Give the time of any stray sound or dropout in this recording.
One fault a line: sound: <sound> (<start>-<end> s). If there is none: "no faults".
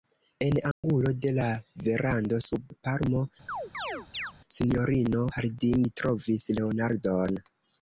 sound: dropout (0.7-0.8 s)
sound: chirp (3.5-4.3 s)